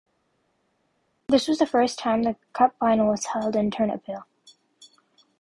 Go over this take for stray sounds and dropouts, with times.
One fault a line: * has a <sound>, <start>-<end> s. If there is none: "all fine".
all fine